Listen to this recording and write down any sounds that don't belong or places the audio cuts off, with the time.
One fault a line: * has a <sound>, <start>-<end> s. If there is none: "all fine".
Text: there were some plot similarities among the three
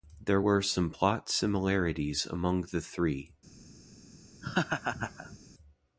* has a laugh, 4.4-5.4 s